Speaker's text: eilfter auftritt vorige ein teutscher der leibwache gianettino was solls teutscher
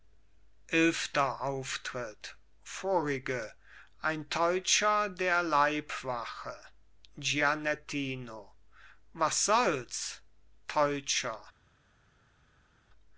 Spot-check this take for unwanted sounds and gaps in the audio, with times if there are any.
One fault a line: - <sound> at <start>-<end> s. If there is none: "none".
none